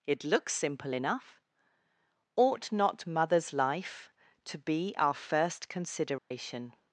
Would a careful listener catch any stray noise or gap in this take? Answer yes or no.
yes